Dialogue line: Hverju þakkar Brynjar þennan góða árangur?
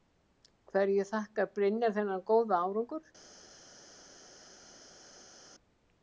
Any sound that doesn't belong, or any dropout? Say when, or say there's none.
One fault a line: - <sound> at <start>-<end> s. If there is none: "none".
none